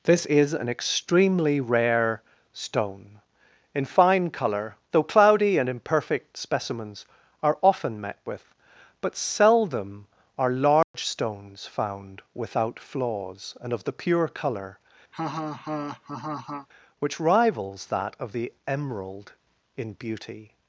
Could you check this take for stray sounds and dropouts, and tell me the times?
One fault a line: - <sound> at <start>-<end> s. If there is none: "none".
- dropout at 10.8-10.9 s
- laugh at 15.1-16.7 s